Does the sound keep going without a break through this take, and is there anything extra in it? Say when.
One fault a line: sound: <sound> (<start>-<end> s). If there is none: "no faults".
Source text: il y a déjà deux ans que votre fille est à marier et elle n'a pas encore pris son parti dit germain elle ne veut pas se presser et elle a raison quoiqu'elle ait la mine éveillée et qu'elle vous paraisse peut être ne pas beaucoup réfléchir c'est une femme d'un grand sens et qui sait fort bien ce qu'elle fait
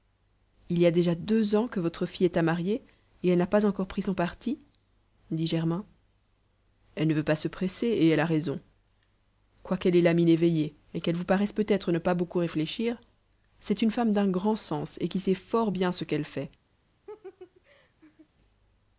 sound: laugh (17.1-18.3 s)